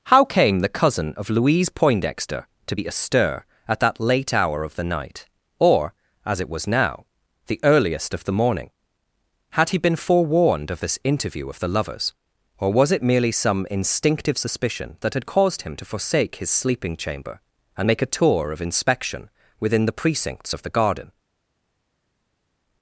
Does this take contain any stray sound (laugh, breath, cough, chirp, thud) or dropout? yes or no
no